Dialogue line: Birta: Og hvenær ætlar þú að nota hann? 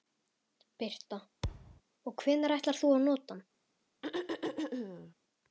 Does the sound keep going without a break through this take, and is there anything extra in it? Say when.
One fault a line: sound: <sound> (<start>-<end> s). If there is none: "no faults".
sound: thud (1.4-1.8 s)
sound: throat clearing (4.0-5.1 s)